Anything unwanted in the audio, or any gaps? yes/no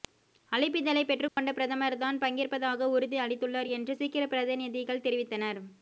yes